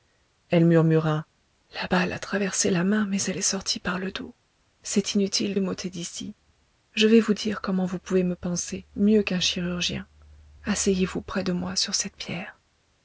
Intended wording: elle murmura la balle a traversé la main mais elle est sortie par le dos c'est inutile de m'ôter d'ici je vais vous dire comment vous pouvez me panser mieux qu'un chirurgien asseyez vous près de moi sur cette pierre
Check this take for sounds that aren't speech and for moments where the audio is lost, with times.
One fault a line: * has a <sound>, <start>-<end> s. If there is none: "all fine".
all fine